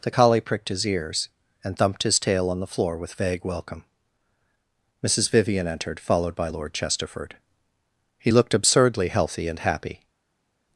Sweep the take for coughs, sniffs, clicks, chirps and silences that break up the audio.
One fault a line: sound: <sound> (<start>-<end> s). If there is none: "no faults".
no faults